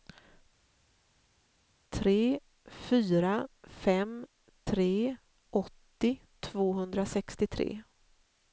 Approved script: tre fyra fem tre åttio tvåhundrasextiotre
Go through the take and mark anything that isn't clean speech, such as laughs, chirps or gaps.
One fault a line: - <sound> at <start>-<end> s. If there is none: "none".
none